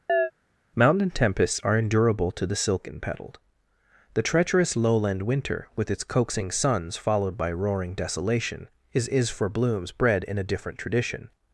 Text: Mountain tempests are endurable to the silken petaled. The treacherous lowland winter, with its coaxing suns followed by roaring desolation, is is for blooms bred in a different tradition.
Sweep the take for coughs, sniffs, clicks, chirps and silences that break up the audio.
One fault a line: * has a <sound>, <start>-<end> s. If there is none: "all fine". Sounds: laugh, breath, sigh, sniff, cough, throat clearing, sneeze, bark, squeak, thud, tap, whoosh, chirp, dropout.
* has a chirp, 0.1-0.3 s